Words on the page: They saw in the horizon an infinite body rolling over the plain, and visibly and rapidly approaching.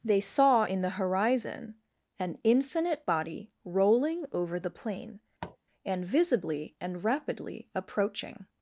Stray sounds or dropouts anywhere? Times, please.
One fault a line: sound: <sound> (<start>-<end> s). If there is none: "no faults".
sound: tap (5.4-5.6 s)